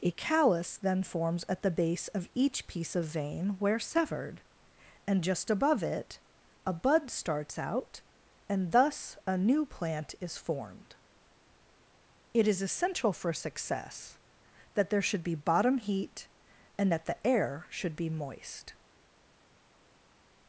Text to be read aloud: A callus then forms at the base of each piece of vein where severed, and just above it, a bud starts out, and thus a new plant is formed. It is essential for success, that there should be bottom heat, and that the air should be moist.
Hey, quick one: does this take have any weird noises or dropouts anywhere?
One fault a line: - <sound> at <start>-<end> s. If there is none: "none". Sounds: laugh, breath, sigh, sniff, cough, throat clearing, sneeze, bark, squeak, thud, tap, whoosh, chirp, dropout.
none